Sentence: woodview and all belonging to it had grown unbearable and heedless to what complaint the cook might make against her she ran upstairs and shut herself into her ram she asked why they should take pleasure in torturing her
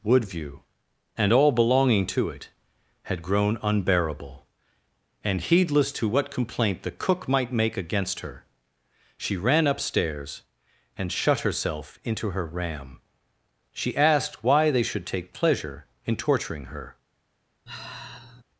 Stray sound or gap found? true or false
true